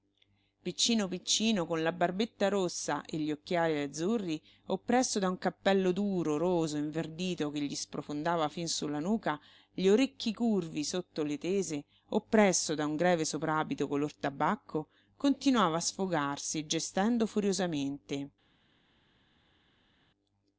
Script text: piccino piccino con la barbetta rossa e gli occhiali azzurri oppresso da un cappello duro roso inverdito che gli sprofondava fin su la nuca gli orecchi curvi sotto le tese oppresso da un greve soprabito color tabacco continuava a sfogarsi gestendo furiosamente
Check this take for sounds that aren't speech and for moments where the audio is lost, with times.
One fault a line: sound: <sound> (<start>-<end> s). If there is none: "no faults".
no faults